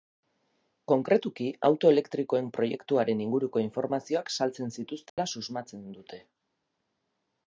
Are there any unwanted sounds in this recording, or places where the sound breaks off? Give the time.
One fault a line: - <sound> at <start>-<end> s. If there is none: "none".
- dropout at 5.1-5.2 s